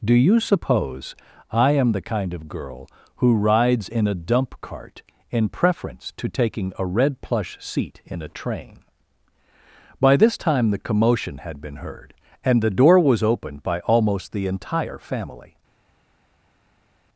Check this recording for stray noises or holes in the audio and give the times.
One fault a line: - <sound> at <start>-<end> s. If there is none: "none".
none